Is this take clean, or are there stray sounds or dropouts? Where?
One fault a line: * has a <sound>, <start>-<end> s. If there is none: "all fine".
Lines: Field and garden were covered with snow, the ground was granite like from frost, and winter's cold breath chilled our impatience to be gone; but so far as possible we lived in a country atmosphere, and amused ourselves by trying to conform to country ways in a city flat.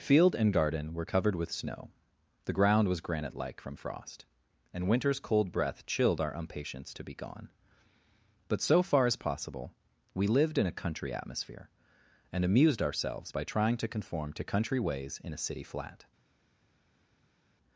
all fine